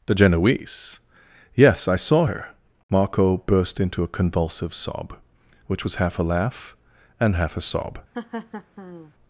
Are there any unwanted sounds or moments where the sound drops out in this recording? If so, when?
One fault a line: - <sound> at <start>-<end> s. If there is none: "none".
- laugh at 8.1-9.1 s